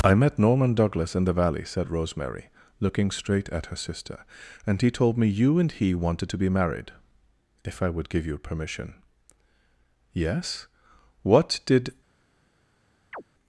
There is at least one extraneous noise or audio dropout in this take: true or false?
true